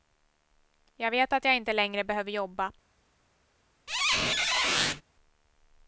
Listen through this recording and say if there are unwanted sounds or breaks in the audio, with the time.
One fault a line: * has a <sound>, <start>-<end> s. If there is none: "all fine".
* has a squeak, 3.9-5.0 s